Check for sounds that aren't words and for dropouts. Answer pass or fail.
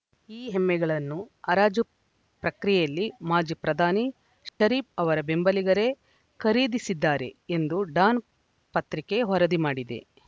fail